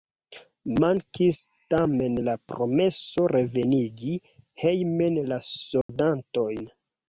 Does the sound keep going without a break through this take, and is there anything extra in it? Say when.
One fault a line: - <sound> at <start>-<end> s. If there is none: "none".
- dropout at 5.8-5.9 s